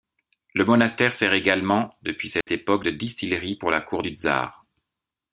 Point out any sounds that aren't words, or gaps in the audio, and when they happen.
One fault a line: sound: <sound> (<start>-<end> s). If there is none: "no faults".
sound: dropout (2.4-2.5 s)